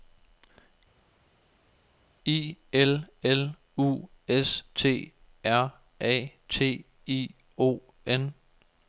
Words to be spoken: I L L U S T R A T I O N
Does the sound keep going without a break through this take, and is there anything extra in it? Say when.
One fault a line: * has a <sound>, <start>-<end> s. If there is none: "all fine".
all fine